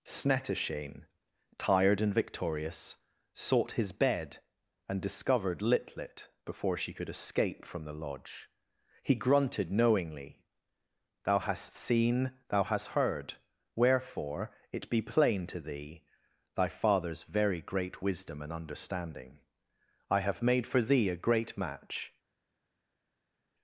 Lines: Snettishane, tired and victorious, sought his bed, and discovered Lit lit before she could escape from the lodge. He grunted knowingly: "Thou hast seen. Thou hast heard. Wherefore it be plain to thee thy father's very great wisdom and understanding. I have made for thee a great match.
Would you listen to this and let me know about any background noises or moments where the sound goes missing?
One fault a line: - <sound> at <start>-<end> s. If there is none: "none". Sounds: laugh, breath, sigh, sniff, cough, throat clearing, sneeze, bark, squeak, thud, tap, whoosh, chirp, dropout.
none